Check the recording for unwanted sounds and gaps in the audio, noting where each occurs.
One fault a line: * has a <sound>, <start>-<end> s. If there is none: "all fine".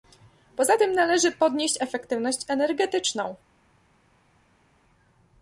all fine